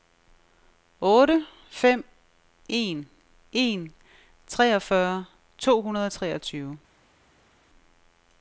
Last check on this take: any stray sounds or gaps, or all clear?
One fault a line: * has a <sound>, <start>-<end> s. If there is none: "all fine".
all fine